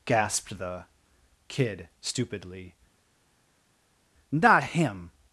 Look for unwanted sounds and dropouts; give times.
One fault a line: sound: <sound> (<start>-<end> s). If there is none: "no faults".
no faults